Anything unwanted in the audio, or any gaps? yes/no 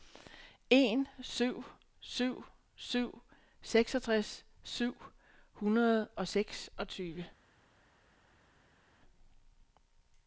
no